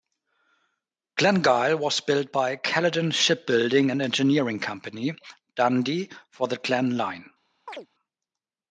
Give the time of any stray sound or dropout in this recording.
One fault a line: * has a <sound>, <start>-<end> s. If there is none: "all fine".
* has a chirp, 7.7-7.9 s